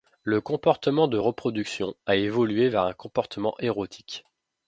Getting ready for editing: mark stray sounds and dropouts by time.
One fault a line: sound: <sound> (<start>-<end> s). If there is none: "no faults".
no faults